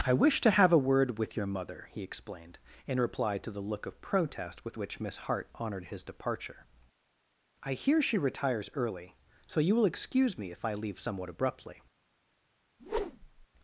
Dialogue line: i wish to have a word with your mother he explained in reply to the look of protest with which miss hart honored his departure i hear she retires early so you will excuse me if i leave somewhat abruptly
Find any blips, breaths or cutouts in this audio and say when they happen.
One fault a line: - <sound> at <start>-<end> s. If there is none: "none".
- whoosh at 12.8-13.5 s